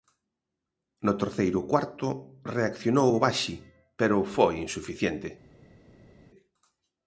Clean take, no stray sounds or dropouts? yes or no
yes